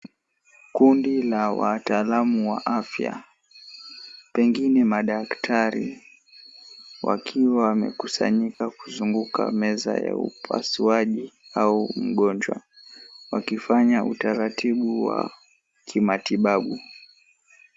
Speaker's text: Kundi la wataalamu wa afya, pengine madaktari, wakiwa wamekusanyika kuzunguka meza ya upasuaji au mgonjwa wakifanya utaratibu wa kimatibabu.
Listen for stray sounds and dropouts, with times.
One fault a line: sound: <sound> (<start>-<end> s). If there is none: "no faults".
sound: dropout (8.5-8.6 s)